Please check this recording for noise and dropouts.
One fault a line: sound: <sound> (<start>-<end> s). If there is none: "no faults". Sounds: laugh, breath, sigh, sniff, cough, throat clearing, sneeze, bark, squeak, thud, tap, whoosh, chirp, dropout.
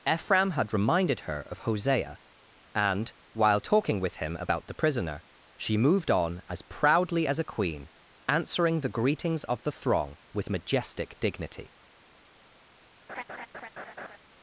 sound: laugh (13.1-14.2 s)